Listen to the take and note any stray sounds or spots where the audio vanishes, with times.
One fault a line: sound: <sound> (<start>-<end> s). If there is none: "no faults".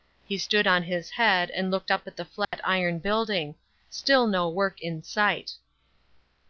sound: dropout (2.4-2.5 s)